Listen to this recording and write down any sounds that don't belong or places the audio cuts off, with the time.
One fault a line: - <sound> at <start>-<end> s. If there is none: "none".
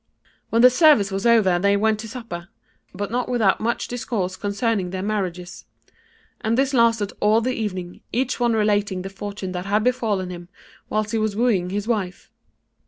none